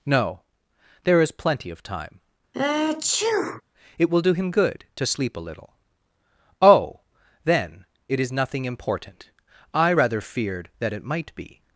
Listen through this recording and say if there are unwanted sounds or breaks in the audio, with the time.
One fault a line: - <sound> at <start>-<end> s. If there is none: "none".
- sneeze at 2.5-3.6 s